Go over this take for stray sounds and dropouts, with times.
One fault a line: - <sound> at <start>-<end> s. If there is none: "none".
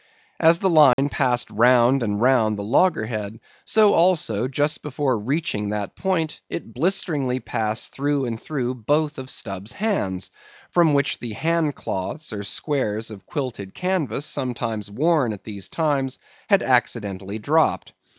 - dropout at 0.9-1.0 s